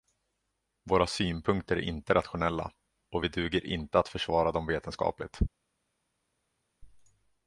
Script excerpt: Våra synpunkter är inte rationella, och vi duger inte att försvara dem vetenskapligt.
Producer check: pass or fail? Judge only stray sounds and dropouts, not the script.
pass